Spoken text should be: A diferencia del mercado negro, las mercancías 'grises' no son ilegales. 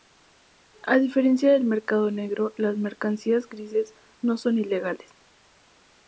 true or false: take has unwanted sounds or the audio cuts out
false